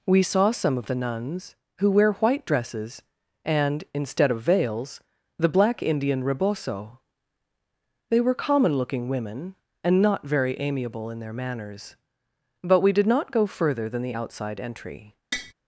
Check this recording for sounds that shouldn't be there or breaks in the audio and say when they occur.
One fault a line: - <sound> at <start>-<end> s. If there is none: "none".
- tap at 15.3-15.5 s